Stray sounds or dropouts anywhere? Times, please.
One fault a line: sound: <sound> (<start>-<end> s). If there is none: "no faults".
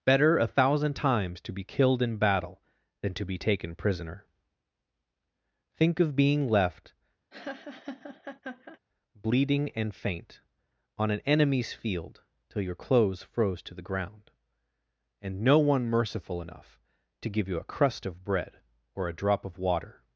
sound: laugh (7.3-8.8 s)